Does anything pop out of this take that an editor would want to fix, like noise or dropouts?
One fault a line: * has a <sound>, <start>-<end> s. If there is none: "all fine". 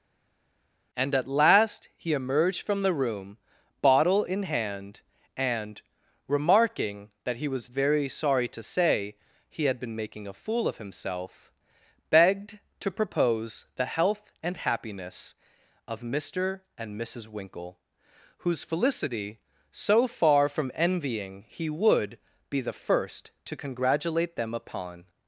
all fine